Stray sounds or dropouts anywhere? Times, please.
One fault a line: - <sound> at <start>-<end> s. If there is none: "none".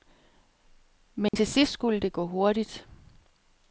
- dropout at 1.3-1.3 s